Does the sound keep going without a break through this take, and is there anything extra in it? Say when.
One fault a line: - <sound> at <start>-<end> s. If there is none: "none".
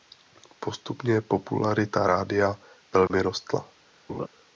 - dropout at 3.1-3.1 s
- laugh at 4.1-4.3 s